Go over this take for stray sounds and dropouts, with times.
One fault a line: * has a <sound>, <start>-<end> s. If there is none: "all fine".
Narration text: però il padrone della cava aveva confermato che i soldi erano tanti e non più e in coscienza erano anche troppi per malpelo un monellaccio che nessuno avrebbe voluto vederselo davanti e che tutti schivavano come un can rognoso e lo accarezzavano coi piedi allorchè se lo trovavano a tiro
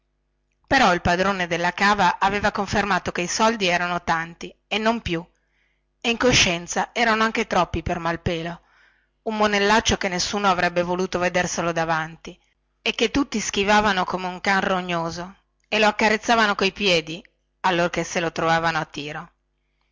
all fine